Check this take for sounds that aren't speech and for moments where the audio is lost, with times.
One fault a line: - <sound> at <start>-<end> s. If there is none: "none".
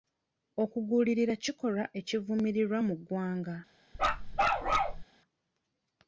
- bark at 3.9-5.0 s